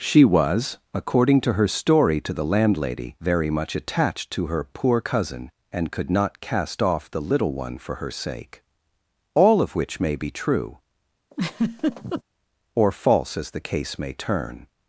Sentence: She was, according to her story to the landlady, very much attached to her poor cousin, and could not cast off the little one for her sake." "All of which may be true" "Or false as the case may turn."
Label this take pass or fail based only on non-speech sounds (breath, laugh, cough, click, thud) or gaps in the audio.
fail